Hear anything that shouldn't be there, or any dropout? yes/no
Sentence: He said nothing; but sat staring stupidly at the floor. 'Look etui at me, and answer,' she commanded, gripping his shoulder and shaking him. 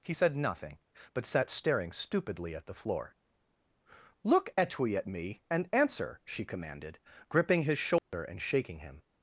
yes